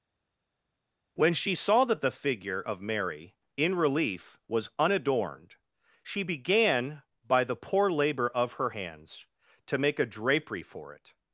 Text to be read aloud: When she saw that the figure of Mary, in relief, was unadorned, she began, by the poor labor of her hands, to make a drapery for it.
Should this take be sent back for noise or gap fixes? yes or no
no